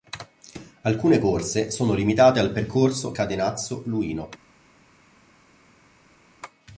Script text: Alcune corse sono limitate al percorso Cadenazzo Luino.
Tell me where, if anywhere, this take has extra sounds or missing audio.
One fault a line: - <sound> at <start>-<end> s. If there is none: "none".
none